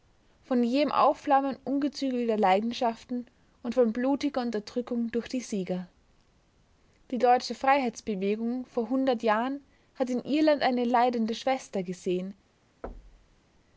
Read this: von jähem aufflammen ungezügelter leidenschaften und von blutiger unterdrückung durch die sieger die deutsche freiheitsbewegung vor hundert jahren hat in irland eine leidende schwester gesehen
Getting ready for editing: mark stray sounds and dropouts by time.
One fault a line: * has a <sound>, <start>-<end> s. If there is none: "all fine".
* has a thud, 12.8-13.4 s